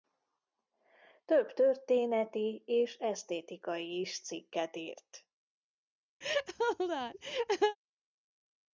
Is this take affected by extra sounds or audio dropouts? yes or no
yes